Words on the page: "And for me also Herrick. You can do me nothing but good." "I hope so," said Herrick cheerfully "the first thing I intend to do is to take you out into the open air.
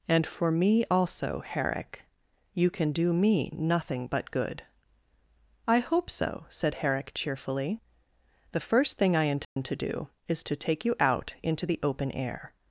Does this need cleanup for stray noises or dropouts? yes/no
yes